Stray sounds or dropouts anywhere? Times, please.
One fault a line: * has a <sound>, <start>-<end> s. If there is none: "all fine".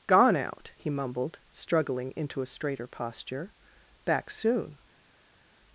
all fine